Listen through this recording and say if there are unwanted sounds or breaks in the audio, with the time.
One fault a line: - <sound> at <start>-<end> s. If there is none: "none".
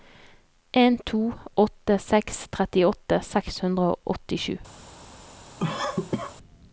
- cough at 5.6-6.4 s